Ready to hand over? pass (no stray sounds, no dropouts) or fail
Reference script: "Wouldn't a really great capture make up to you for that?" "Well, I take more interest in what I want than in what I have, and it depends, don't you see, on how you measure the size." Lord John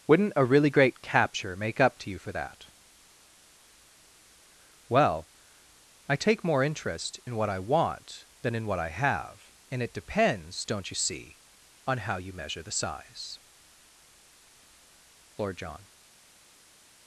pass